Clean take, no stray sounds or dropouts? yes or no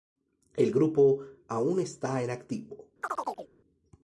no